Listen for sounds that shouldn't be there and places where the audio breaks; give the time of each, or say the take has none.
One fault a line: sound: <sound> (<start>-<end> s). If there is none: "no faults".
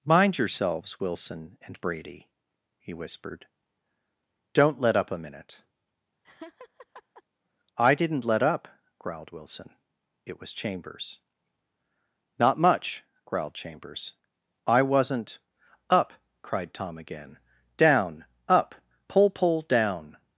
sound: laugh (6.2-7.2 s)